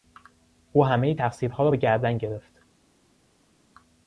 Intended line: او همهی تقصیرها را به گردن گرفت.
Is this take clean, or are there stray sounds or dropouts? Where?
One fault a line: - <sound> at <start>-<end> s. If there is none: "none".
none